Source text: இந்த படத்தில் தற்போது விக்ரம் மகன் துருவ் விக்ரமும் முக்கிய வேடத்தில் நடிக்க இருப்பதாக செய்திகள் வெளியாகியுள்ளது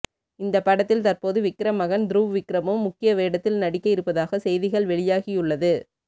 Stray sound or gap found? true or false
false